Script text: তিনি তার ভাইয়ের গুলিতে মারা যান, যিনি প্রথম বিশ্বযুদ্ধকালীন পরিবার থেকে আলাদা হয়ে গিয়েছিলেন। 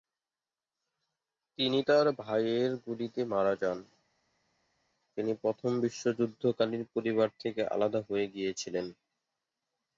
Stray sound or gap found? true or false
false